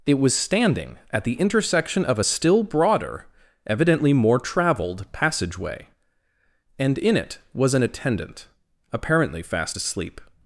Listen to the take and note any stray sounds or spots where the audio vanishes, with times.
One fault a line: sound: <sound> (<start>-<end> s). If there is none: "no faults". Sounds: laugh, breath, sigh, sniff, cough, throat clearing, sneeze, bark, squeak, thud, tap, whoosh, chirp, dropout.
no faults